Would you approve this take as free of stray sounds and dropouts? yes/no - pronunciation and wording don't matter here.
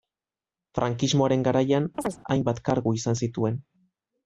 no